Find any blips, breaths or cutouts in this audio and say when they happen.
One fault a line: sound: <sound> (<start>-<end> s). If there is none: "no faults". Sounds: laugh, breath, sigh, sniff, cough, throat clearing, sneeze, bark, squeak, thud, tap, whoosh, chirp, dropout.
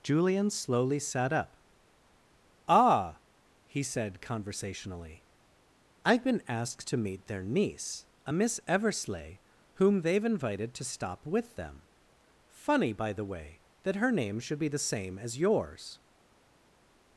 no faults